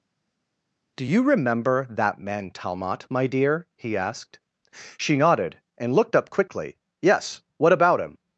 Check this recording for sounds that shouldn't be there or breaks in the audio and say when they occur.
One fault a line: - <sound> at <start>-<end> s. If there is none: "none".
none